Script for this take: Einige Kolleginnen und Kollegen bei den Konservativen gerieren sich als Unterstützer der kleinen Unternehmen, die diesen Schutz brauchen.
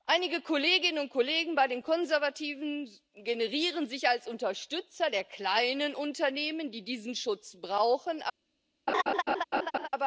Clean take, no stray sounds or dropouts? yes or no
no